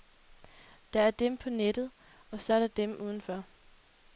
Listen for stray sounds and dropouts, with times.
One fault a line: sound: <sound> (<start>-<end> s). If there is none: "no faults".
no faults